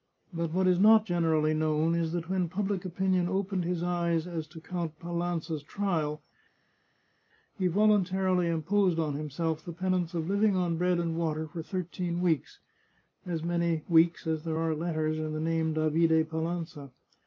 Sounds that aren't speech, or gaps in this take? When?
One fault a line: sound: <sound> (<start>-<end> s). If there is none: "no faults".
no faults